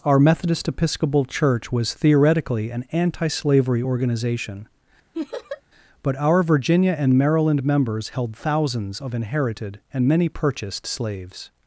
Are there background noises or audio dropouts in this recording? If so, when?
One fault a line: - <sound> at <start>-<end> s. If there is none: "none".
- laugh at 5.1-5.6 s